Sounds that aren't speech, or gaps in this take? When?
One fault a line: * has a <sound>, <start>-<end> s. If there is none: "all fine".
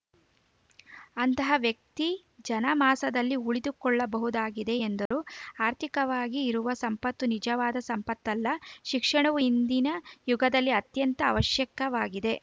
* has a dropout, 5.1-5.1 s